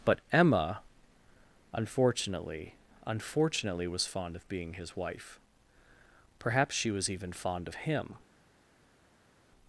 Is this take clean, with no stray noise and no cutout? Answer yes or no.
yes